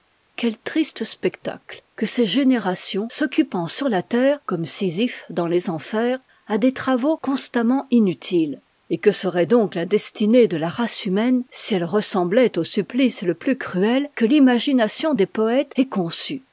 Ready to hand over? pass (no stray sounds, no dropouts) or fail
pass